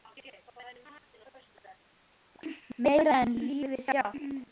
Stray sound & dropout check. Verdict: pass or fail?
pass